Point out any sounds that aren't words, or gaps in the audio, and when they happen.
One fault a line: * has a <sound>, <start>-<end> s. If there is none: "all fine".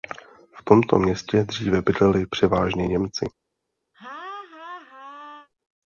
* has a laugh, 3.9-5.5 s